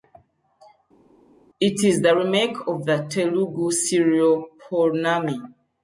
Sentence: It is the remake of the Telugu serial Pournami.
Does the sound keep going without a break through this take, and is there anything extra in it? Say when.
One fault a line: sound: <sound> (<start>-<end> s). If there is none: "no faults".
no faults